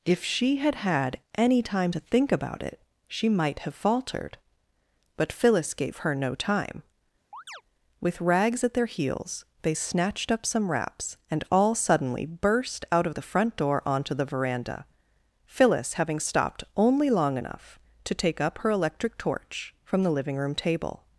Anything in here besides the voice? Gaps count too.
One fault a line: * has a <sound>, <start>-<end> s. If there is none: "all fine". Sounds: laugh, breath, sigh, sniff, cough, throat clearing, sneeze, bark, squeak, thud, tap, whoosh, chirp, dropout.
* has a chirp, 7.3-7.6 s